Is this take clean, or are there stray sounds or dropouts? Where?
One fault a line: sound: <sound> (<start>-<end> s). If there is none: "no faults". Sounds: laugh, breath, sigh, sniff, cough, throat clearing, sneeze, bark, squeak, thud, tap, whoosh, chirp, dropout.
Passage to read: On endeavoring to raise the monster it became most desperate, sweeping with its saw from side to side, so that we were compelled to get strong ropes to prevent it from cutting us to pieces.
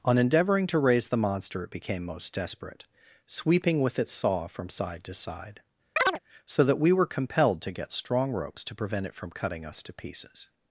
sound: chirp (6.0-6.2 s)